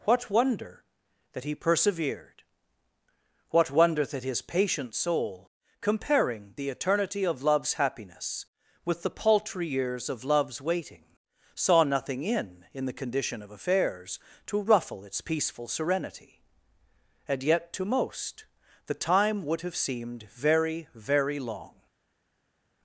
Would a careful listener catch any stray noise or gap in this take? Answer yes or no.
no